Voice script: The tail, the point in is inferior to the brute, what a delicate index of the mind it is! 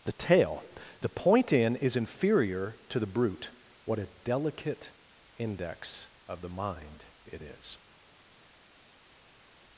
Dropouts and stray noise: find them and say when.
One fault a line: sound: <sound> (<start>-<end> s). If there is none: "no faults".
no faults